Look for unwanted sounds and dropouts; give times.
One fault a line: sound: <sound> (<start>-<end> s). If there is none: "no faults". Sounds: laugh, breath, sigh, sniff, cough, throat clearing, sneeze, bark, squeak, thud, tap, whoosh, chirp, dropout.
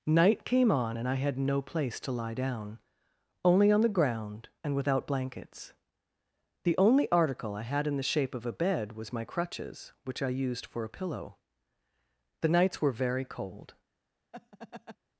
sound: laugh (14.3-15.0 s)